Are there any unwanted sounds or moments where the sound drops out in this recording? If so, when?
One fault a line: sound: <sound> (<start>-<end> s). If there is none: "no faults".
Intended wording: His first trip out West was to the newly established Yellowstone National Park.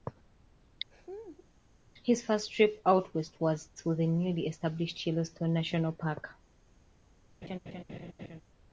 sound: laugh (0.9-1.5 s)
sound: laugh (7.4-8.4 s)